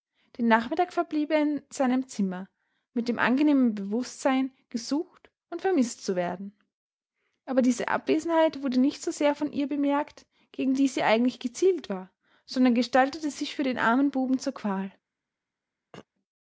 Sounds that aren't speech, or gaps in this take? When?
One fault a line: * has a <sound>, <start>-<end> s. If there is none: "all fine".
* has a throat clearing, 15.9-16.1 s